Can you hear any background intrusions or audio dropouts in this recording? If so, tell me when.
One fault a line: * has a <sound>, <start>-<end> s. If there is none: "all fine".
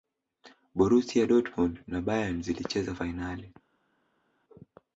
all fine